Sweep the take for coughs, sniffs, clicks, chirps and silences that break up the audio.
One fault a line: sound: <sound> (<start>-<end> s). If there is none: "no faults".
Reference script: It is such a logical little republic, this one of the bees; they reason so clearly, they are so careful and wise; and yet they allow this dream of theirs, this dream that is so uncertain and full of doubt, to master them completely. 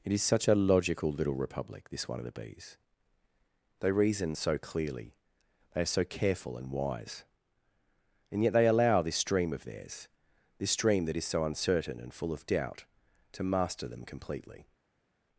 no faults